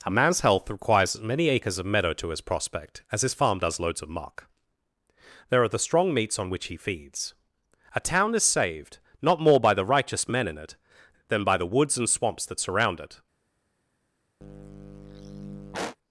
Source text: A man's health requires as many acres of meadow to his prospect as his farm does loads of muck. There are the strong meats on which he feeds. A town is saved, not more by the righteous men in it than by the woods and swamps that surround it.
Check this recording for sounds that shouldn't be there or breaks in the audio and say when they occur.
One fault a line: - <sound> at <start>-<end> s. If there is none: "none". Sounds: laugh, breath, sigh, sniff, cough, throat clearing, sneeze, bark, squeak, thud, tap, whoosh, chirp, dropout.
- sigh at 14.4-16.0 s